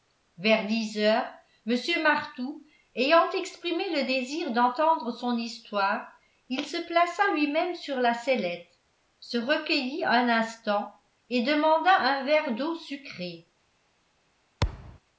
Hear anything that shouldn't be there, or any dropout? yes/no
yes